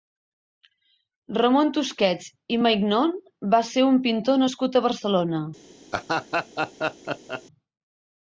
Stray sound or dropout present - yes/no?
yes